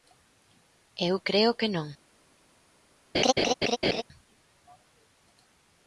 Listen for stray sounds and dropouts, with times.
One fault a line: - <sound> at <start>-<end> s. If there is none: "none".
- laugh at 3.1-4.0 s